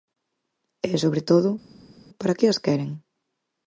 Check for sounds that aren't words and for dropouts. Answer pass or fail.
pass